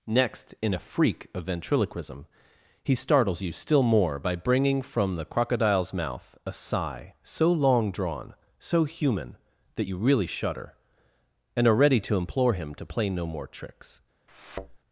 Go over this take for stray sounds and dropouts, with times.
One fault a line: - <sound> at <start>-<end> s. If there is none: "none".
- thud at 14.3-14.8 s